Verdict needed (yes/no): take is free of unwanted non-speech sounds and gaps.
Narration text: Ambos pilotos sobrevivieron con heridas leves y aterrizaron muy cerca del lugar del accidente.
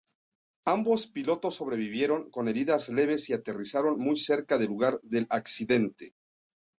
yes